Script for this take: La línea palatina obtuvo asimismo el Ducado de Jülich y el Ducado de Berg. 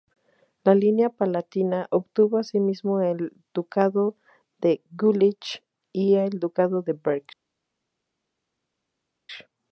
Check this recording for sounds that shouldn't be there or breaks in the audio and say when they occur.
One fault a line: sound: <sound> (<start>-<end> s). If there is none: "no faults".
no faults